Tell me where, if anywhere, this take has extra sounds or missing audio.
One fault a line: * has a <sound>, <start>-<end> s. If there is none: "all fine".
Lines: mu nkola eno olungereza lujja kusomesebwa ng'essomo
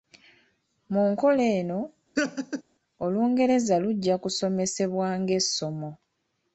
* has a laugh, 2.2-2.6 s